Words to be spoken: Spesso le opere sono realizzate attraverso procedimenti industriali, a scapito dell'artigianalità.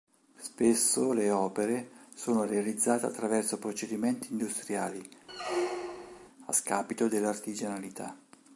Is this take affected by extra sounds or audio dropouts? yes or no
yes